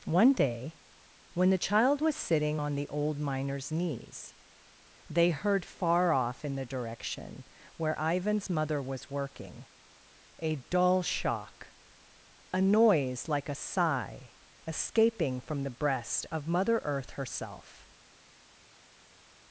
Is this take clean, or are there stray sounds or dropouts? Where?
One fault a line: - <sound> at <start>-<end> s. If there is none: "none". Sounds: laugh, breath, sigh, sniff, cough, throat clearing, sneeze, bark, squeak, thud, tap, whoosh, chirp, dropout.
none